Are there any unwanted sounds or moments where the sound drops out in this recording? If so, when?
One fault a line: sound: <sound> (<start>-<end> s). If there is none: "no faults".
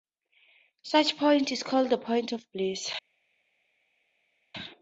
no faults